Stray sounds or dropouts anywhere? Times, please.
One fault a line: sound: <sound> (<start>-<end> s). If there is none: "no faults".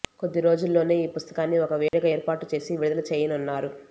sound: dropout (1.9-1.9 s)